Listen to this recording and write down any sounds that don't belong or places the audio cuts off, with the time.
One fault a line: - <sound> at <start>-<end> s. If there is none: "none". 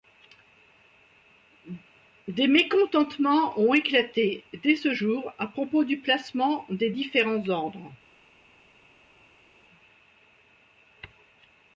none